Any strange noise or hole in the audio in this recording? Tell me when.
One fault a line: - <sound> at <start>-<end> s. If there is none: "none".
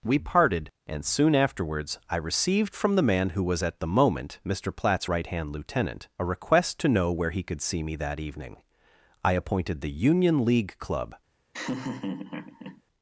- laugh at 11.5-12.8 s